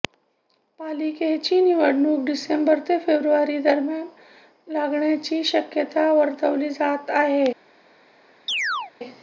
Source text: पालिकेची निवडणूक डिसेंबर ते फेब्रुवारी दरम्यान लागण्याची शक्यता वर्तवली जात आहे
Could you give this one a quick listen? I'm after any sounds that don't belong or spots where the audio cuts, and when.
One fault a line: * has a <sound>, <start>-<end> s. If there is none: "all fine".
* has a chirp, 8.5-8.9 s